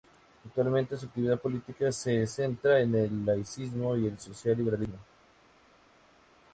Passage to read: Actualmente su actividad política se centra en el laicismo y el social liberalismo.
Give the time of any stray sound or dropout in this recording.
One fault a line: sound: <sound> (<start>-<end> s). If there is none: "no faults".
no faults